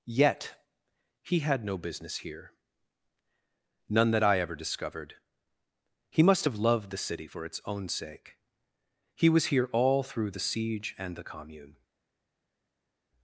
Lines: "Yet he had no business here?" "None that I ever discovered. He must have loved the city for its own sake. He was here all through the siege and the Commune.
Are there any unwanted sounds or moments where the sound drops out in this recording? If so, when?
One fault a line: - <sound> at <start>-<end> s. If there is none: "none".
none